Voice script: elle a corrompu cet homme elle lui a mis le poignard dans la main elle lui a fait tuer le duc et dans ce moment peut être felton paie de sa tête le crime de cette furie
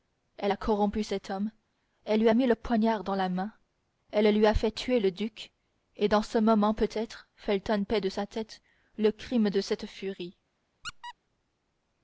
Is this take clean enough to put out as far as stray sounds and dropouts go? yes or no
no